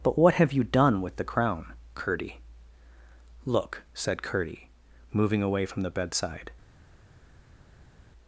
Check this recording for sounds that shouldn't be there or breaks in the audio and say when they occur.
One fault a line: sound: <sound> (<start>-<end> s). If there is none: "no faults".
no faults